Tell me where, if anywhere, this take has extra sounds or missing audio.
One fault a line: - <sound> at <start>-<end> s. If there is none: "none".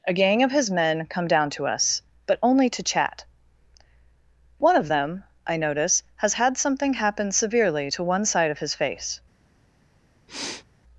- sniff at 10.3-10.7 s